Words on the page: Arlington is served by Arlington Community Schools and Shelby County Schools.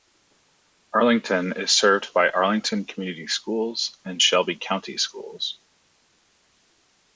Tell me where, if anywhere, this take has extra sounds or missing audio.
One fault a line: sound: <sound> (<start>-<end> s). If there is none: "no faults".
no faults